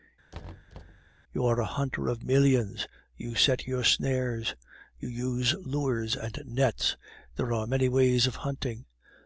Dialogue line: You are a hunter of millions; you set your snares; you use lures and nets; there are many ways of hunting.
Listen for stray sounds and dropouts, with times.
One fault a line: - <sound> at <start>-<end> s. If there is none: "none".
- thud at 0.3-1.1 s